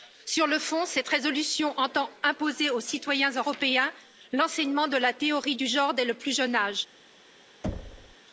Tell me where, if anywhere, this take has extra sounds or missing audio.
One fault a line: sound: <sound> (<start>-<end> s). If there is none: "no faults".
sound: thud (7.6-8.2 s)